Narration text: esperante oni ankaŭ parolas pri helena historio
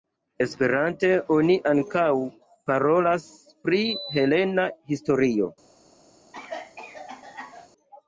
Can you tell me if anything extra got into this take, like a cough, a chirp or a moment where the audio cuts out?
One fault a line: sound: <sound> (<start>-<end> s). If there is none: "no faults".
sound: cough (6.3-7.7 s)